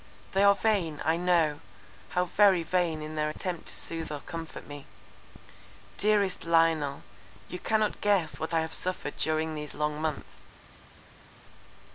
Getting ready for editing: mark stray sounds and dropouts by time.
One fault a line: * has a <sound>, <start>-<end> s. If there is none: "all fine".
all fine